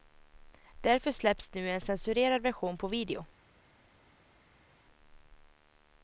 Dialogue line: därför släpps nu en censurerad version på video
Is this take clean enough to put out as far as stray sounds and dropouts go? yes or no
yes